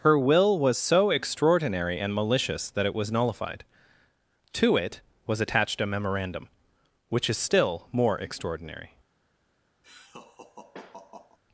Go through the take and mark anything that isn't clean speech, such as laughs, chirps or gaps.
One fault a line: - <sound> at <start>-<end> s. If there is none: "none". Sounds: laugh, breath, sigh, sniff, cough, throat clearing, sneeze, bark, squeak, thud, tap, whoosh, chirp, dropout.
- laugh at 9.8-11.4 s